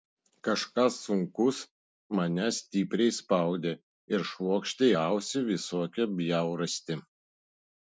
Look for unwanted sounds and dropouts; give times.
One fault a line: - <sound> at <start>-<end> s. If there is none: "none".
none